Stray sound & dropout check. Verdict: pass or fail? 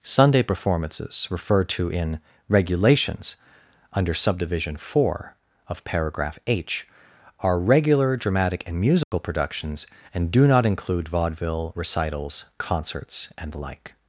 fail